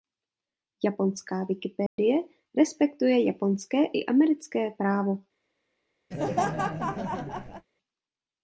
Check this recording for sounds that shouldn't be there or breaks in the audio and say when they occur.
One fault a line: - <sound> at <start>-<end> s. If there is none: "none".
- dropout at 1.9-2.0 s
- laugh at 6.1-7.7 s